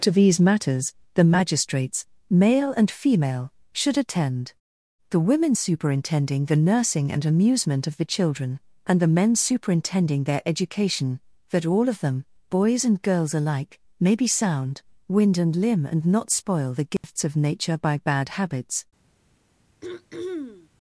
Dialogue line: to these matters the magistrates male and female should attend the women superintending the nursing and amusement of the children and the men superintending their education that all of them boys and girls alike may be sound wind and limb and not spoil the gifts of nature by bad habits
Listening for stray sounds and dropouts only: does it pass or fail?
fail